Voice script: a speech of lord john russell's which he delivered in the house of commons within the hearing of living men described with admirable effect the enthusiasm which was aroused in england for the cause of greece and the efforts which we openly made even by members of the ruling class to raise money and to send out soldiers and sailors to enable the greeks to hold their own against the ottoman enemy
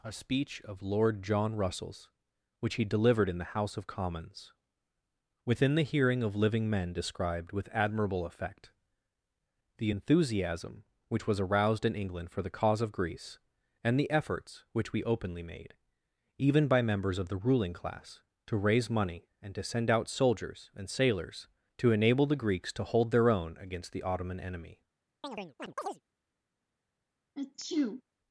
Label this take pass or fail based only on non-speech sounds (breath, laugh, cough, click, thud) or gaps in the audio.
fail